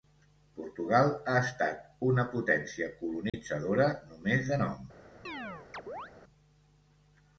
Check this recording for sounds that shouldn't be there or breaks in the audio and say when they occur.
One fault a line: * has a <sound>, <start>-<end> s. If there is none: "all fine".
* has a dropout, 3.3-3.3 s
* has a chirp, 5.2-6.1 s